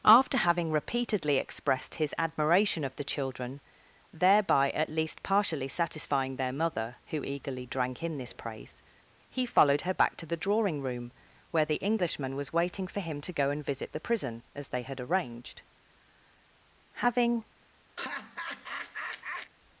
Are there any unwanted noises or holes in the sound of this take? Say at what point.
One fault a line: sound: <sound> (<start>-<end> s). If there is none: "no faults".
sound: laugh (18.0-19.5 s)